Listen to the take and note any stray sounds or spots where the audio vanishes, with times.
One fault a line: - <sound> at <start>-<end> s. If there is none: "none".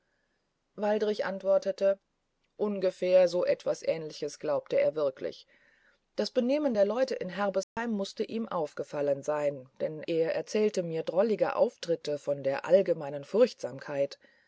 - dropout at 7.6-7.8 s